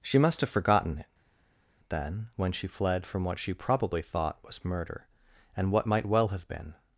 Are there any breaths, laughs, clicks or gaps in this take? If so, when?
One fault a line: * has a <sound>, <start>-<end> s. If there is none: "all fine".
all fine